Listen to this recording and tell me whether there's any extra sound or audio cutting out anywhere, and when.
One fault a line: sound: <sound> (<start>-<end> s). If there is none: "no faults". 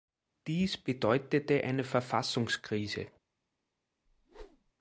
sound: whoosh (4.1-4.7 s)